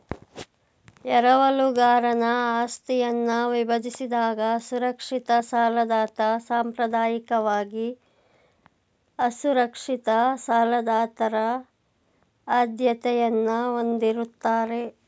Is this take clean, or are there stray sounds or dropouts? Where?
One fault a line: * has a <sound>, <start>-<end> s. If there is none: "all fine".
all fine